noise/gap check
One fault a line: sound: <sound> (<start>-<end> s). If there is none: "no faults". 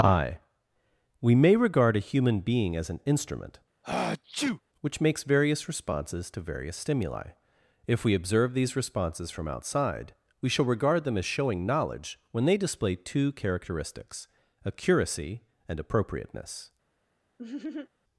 sound: sneeze (3.8-4.6 s)
sound: laugh (17.4-17.9 s)